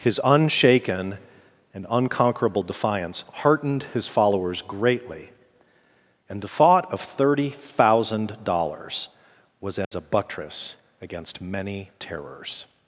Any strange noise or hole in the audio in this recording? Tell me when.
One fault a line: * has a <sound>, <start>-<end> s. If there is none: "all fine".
* has a dropout, 9.8-9.9 s